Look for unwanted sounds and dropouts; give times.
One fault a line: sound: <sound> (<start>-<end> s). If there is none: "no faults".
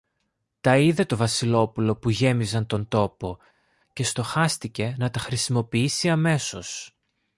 no faults